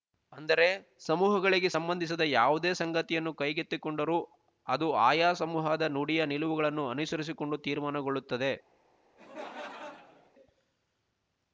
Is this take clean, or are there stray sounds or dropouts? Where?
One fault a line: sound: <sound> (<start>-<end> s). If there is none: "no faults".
sound: laugh (9.2-10.3 s)